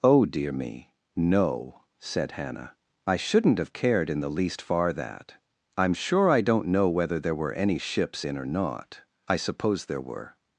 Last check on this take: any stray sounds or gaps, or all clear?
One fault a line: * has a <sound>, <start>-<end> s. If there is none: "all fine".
all fine